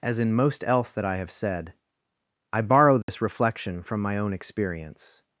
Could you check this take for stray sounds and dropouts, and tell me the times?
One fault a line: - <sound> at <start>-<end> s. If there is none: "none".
- dropout at 3.0-3.1 s